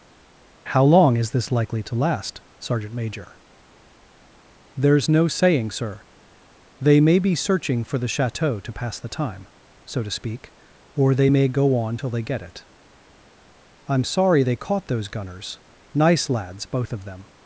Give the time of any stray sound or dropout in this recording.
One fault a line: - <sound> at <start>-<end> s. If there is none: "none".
none